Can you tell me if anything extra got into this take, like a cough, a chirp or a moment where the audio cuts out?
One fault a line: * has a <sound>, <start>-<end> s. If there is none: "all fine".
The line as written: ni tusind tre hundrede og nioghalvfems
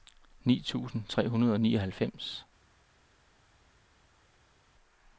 all fine